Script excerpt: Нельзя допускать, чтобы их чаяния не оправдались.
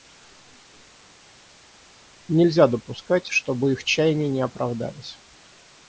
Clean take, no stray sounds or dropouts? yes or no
yes